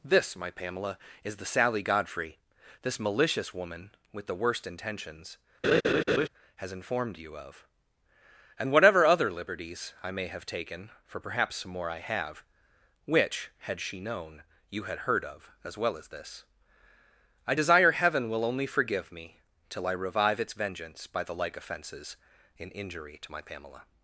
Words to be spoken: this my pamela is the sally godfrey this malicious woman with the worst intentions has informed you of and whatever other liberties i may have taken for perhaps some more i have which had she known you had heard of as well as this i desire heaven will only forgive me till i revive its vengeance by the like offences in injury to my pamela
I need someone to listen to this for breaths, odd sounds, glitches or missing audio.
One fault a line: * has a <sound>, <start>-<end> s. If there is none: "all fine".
* has a laugh, 5.6-6.3 s